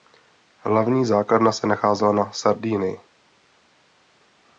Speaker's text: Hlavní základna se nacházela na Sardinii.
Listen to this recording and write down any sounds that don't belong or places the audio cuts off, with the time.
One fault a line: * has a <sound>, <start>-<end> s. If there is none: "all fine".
all fine